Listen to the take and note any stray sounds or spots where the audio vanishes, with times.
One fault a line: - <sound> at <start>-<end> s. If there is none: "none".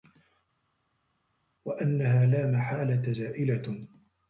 none